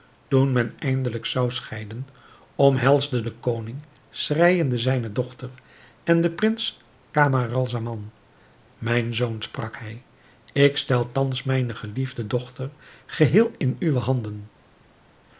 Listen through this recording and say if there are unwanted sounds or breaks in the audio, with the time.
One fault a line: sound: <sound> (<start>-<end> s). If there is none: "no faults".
no faults